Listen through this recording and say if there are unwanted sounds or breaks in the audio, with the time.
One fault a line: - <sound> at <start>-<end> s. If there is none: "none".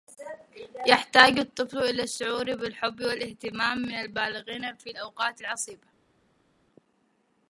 none